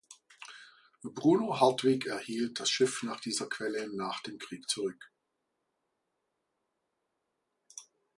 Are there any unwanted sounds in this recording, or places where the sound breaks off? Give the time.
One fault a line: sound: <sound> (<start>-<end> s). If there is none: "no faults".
no faults